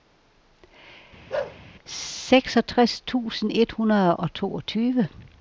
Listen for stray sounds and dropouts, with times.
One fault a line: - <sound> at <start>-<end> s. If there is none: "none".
- bark at 1.3-1.6 s